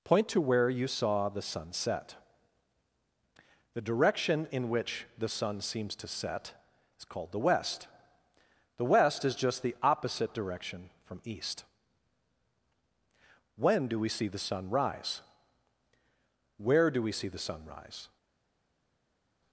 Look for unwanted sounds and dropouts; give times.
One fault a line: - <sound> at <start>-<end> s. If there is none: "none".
none